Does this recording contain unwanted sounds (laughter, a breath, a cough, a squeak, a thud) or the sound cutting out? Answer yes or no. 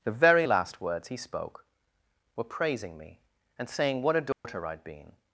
yes